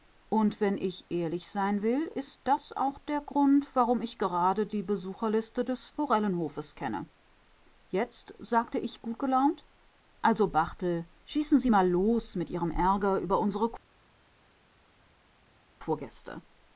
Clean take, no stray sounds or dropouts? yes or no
yes